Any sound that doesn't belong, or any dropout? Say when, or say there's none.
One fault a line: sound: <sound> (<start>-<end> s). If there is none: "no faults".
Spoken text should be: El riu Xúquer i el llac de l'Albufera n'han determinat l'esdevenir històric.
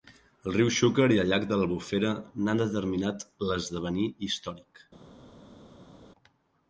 no faults